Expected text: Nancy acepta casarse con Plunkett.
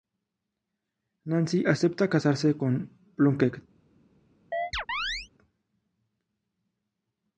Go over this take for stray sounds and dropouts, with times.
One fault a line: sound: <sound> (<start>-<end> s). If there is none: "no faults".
sound: chirp (4.5-5.3 s)